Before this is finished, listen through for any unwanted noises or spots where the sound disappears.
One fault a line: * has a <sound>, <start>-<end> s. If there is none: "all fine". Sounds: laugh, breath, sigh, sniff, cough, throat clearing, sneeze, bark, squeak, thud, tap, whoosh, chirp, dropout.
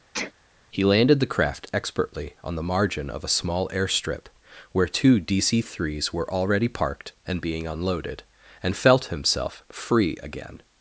* has a sneeze, 0.1-0.3 s